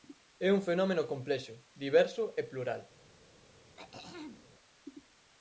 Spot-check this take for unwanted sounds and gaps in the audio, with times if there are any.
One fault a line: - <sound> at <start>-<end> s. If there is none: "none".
- throat clearing at 3.8-4.5 s